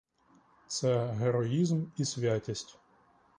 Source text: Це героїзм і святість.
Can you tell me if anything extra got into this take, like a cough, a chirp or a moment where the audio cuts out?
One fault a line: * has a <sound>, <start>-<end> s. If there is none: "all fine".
all fine